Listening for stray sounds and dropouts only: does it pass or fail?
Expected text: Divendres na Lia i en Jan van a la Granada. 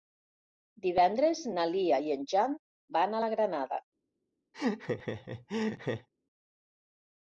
fail